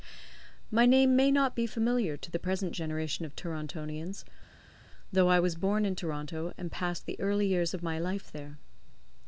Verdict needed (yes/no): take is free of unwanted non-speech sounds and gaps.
yes